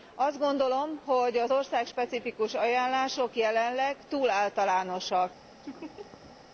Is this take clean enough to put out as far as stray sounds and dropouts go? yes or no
no